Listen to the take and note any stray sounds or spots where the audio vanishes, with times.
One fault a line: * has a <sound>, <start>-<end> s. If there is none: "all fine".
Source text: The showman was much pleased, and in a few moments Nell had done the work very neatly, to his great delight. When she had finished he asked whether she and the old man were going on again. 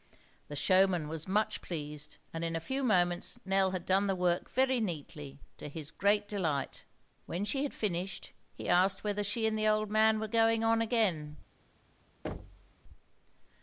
* has a thud, 12.2-12.7 s